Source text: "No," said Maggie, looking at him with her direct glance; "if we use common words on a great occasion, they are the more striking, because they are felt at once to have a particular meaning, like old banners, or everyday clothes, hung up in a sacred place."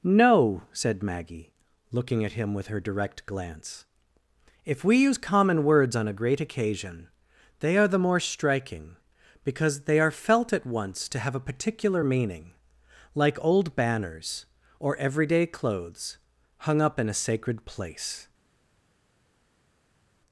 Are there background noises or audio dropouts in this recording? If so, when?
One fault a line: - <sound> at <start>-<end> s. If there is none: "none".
none